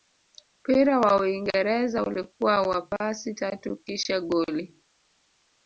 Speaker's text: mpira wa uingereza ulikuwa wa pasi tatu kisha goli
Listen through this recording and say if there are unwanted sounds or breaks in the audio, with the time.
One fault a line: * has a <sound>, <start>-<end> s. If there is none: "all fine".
all fine